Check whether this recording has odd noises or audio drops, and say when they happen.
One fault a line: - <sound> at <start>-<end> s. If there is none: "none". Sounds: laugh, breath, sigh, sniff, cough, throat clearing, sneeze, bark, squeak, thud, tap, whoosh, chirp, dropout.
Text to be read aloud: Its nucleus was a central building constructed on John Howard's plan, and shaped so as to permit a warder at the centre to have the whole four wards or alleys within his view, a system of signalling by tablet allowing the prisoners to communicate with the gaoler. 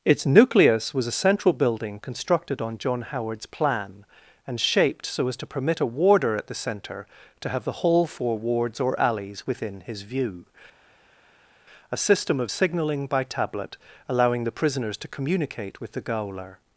none